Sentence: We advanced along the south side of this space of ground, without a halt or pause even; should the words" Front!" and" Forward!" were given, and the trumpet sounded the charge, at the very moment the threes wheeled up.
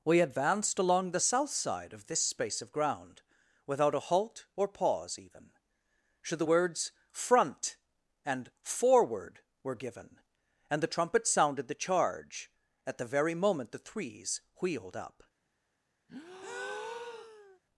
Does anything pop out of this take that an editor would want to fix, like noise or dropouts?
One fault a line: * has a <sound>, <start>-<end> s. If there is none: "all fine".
* has a breath, 16.1-17.6 s